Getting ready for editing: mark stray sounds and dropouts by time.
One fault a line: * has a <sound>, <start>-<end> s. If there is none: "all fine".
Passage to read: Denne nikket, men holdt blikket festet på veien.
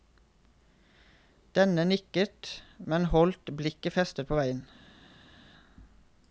all fine